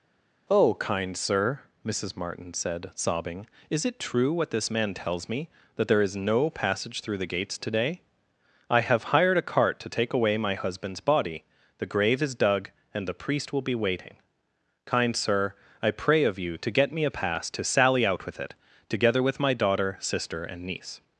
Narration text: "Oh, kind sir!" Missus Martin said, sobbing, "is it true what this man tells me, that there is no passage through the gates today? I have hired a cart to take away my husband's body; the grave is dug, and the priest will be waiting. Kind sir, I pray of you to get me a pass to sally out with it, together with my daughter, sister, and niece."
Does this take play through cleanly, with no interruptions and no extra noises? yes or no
yes